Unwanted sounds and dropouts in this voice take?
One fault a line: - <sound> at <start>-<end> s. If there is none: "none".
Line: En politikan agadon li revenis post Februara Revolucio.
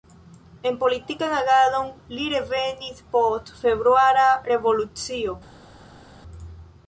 none